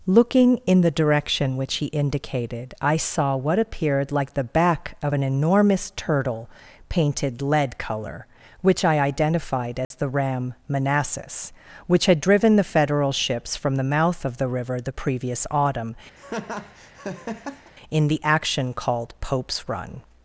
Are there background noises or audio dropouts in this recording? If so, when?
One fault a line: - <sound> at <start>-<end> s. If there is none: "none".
- dropout at 9.8-9.9 s
- laugh at 16.2-17.7 s